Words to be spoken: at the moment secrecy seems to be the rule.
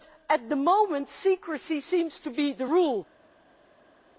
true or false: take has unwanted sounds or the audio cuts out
false